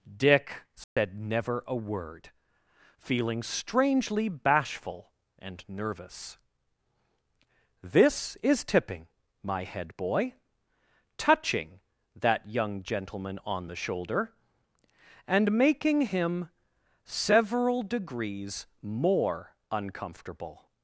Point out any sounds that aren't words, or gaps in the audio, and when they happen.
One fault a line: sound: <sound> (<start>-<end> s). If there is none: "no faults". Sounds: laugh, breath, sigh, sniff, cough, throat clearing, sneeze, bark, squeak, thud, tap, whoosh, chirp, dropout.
sound: dropout (0.8-1.0 s)